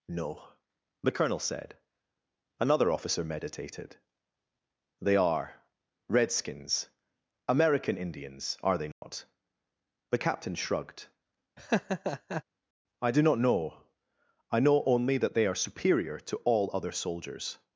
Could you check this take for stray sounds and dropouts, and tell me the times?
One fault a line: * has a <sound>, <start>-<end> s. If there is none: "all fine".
* has a dropout, 8.9-9.0 s
* has a laugh, 11.6-12.4 s